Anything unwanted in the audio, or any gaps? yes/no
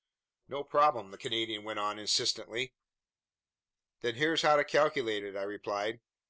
no